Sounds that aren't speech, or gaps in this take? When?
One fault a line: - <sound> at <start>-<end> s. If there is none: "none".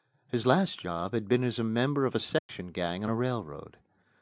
- dropout at 2.4-2.5 s